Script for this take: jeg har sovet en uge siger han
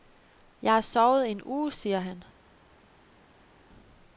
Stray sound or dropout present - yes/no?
no